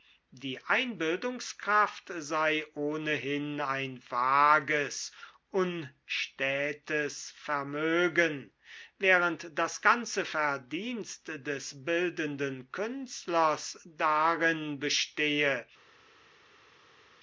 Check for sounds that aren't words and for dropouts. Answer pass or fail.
pass